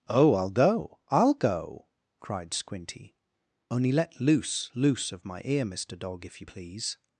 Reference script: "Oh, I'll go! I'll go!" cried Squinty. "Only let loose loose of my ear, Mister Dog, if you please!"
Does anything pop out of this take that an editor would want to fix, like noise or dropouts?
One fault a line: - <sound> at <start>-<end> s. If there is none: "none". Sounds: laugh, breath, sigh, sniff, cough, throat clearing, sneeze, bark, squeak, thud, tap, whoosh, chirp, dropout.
none